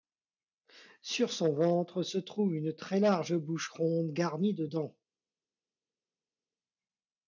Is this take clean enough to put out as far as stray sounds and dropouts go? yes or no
yes